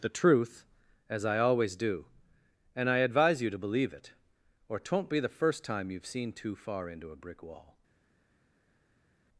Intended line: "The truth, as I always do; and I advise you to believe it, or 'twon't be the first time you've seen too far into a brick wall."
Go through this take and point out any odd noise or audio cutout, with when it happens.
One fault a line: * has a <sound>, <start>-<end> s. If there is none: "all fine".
all fine